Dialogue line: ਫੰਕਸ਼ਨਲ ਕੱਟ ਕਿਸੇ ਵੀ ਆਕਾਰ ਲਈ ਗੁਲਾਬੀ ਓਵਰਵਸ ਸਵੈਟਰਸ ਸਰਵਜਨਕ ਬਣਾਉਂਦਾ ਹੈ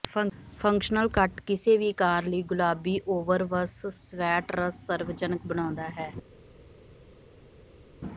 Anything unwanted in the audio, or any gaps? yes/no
no